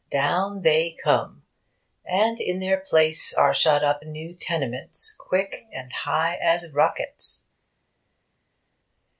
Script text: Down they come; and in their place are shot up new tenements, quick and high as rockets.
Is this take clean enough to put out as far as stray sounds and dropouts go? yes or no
yes